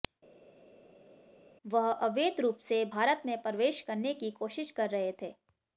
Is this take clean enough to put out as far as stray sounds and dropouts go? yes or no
yes